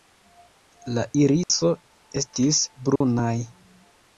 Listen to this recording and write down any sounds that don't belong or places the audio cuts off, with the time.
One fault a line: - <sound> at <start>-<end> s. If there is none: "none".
- dropout at 1.4-1.5 s
- dropout at 3.0-3.0 s